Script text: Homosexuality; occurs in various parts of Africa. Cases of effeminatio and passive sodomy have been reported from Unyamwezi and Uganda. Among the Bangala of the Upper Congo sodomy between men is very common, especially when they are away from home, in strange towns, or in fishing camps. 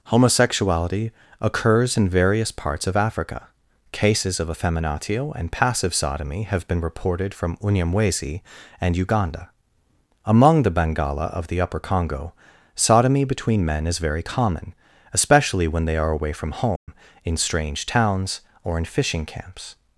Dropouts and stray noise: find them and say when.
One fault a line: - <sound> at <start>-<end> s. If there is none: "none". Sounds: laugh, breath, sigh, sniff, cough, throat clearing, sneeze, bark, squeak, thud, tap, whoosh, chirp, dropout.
- dropout at 16.8-16.9 s